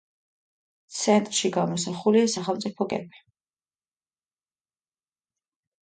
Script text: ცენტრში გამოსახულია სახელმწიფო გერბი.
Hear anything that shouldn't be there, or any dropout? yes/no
no